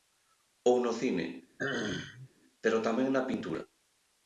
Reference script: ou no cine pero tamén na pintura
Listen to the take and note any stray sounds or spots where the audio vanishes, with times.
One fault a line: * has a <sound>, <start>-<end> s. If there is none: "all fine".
* has a throat clearing, 1.6-2.3 s